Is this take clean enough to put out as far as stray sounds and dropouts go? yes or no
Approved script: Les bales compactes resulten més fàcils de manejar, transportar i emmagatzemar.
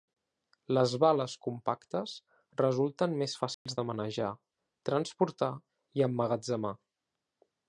no